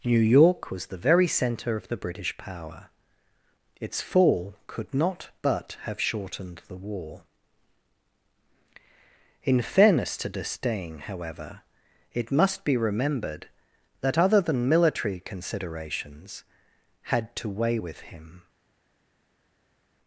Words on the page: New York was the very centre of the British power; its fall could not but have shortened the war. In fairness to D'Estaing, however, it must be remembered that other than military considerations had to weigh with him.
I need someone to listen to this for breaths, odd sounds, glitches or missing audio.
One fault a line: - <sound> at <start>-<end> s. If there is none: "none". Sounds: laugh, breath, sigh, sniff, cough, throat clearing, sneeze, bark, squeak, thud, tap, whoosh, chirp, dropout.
none